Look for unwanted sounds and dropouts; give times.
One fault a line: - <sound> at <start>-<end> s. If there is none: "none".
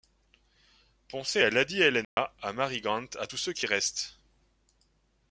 - dropout at 2.0-2.2 s